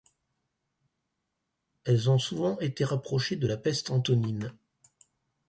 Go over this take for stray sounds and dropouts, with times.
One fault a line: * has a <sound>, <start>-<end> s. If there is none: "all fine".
all fine